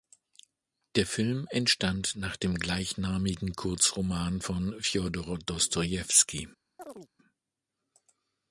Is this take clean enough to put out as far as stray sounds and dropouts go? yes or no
no